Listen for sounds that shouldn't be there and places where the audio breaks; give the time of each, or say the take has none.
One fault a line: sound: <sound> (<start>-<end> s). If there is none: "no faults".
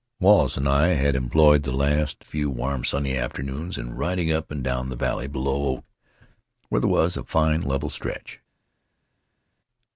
no faults